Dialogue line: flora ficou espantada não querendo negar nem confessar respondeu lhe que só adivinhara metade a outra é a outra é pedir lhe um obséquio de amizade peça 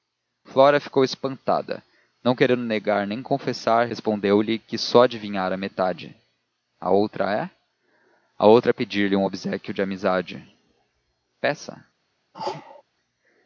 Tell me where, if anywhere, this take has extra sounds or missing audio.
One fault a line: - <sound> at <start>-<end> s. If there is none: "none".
- sneeze at 12.3-12.8 s